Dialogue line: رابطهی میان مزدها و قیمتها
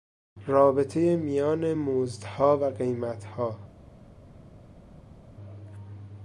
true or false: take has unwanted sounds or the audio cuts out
false